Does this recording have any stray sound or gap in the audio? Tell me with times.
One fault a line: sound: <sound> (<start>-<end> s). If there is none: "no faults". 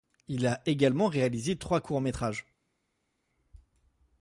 no faults